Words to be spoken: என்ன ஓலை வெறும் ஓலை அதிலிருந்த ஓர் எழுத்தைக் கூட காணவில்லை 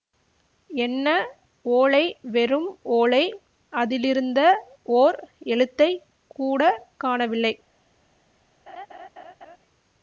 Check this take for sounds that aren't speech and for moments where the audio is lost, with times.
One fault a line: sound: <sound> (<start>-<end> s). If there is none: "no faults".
sound: laugh (8.7-9.6 s)